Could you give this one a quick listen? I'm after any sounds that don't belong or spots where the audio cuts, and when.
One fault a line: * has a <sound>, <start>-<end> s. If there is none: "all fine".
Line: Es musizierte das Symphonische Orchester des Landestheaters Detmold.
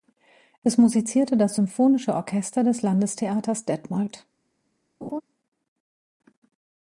* has a laugh, 5.0-5.2 s